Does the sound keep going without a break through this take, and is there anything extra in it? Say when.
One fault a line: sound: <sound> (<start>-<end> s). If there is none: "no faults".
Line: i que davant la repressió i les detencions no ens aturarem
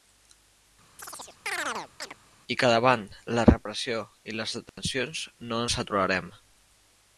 sound: chirp (1.0-2.2 s)
sound: dropout (4.7-4.8 s)